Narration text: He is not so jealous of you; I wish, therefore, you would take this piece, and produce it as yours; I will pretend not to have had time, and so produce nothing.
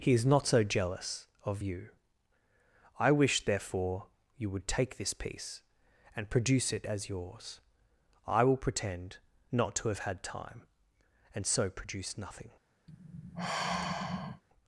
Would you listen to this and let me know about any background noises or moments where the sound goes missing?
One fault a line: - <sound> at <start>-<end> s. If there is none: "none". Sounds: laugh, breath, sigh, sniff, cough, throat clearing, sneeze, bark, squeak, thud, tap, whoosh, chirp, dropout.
- sigh at 12.9-14.4 s